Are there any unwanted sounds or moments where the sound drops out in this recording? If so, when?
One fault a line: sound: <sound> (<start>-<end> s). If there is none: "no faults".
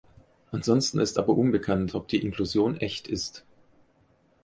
no faults